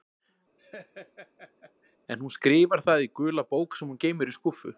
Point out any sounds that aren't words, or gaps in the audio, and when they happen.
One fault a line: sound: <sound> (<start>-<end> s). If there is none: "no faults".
sound: laugh (0.6-2.0 s)